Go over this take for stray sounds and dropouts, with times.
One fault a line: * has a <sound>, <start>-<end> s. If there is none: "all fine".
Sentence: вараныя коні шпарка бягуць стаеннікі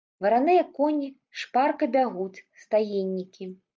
all fine